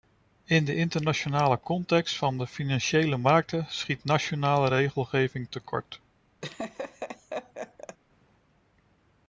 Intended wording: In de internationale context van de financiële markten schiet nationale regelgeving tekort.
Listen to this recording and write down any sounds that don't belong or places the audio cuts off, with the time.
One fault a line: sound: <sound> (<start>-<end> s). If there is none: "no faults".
sound: laugh (6.4-8.0 s)